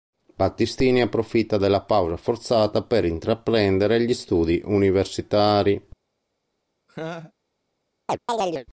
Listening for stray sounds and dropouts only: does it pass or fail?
fail